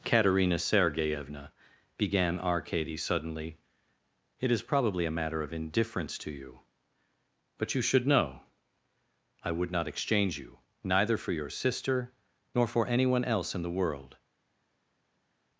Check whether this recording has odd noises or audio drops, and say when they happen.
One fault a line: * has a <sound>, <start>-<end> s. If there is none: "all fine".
all fine